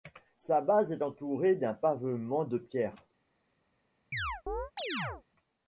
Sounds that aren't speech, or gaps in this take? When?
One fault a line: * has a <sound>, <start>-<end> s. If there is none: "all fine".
* has a chirp, 4.1-5.2 s